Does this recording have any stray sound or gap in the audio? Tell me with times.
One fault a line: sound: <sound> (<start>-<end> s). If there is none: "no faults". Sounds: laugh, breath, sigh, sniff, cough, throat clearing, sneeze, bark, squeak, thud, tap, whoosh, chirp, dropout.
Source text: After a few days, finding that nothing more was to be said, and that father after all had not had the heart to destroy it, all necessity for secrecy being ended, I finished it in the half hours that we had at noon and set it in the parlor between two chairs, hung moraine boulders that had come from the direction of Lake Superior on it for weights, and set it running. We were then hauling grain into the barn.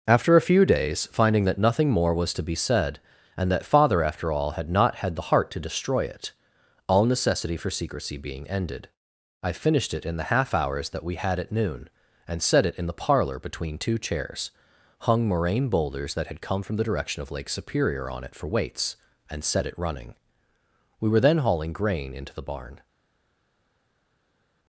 no faults